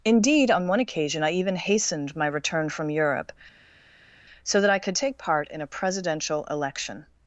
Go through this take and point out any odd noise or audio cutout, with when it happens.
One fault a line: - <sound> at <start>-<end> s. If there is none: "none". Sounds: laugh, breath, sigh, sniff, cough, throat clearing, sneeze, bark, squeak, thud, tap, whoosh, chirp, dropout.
none